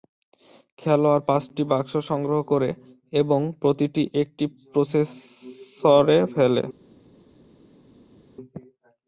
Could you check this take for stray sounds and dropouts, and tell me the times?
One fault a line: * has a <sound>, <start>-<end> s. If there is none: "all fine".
all fine